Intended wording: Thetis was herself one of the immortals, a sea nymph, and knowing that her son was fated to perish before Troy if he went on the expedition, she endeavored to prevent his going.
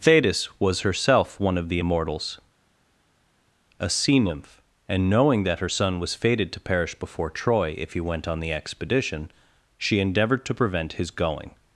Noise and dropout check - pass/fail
pass